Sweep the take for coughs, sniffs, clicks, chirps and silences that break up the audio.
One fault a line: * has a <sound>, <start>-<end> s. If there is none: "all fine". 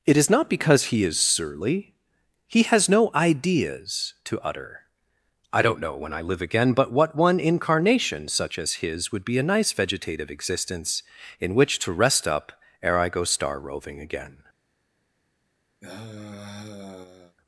* has a sigh, 15.8-17.4 s